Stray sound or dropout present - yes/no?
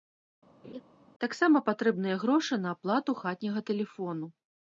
yes